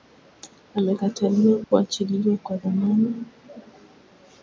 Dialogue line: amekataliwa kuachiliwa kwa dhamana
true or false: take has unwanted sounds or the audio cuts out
true